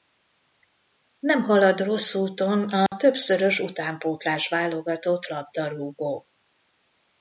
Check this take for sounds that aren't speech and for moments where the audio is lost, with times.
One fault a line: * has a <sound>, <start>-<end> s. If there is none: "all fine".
* has a dropout, 2.9-2.9 s